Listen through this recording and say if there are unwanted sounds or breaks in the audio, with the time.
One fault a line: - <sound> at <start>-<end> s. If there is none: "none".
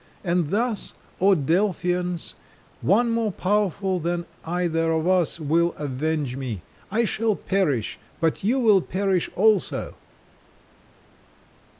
none